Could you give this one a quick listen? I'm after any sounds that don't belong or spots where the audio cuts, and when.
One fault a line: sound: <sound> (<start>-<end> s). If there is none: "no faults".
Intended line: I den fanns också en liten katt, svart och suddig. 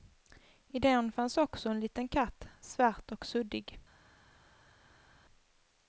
no faults